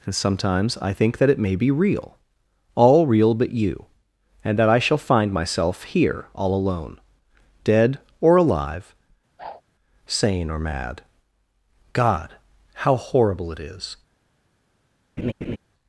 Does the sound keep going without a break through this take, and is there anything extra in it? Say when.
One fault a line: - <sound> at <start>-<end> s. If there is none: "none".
- whoosh at 9.4-9.6 s
- laugh at 15.2-15.6 s